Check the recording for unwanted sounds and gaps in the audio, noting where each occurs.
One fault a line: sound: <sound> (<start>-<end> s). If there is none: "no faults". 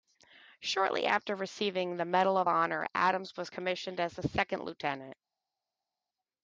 no faults